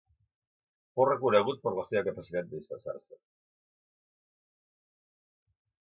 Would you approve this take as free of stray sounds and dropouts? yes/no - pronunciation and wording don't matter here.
yes